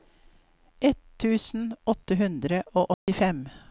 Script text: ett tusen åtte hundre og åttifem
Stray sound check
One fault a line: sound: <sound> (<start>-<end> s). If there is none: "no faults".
sound: dropout (2.9-3.1 s)